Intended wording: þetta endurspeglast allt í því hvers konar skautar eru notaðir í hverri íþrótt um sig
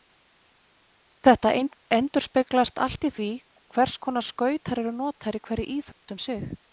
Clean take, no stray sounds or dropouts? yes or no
no